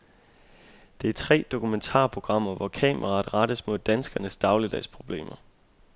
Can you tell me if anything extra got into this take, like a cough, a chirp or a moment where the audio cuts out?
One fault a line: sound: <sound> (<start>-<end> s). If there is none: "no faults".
no faults